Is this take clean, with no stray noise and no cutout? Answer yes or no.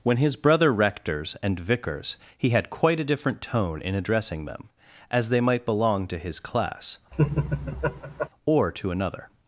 no